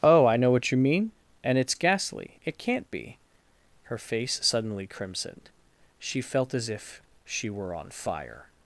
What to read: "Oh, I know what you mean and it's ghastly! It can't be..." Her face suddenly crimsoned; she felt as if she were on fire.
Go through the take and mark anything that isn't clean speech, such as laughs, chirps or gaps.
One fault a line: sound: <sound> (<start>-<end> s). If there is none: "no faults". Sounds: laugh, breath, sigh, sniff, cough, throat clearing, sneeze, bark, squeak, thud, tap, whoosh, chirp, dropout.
no faults